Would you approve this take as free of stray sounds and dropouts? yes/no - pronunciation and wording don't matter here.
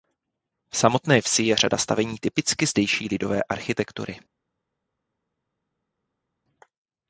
yes